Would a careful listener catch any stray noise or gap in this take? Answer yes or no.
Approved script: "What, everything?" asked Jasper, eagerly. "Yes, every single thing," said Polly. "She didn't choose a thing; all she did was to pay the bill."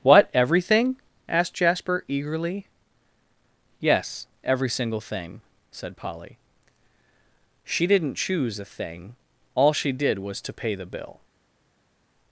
no